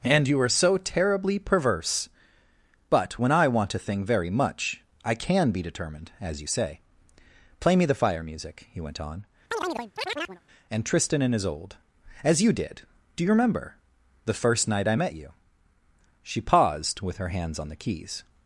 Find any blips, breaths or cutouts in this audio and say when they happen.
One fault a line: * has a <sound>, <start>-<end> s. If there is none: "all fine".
* has a chirp, 9.5-10.4 s